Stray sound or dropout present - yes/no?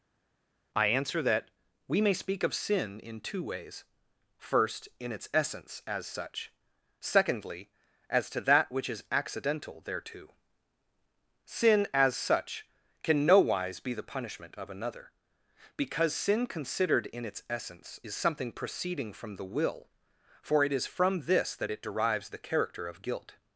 no